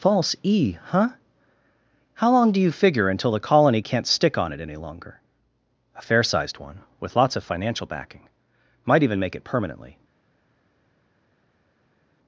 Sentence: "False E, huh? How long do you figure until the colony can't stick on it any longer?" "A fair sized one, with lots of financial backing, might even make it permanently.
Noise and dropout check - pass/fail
pass